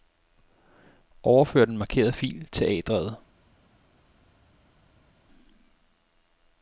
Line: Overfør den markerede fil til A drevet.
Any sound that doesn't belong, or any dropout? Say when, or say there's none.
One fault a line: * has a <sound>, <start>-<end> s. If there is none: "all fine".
all fine